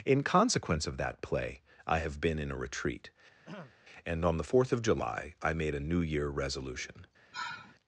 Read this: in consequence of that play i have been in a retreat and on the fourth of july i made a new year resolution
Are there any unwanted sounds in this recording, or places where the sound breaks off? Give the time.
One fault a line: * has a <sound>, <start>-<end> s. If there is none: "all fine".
* has a throat clearing, 3.4-3.8 s
* has a sigh, 7.3-7.8 s